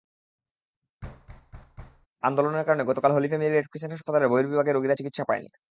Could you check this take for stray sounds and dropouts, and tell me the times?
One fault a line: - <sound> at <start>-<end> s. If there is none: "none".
- thud at 1.0-2.1 s